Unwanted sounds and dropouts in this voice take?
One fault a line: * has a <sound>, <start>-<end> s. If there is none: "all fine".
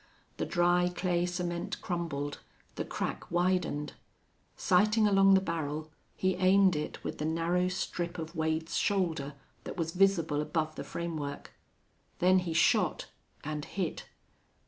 all fine